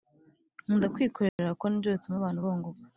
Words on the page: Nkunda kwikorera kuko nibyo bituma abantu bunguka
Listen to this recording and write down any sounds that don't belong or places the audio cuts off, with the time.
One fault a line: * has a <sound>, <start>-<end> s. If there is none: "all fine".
* has a dropout, 1.3-1.4 s